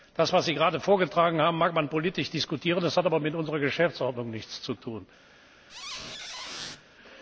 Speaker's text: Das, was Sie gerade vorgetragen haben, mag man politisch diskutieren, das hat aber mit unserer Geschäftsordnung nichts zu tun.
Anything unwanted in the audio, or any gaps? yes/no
yes